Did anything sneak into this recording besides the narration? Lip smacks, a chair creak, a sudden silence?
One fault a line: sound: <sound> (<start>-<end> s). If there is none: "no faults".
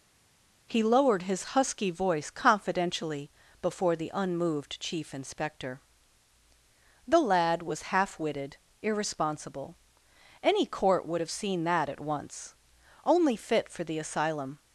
no faults